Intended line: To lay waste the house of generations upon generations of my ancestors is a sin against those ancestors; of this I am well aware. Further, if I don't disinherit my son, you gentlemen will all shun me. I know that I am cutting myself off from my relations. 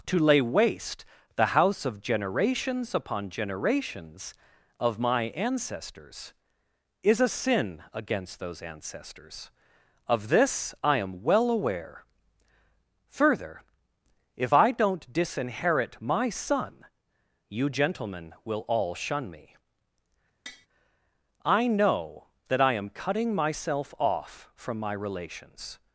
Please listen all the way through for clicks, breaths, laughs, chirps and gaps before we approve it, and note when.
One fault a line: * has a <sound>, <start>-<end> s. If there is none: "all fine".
* has a tap, 20.5-20.7 s